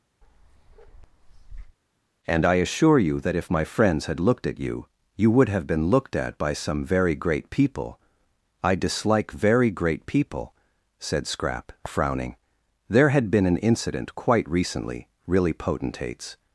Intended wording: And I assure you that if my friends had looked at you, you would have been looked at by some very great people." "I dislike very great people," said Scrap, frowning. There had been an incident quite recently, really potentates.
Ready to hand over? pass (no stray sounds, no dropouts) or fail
fail